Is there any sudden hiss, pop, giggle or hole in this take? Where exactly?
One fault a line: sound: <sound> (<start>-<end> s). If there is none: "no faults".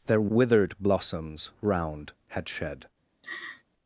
sound: laugh (3.2-3.6 s)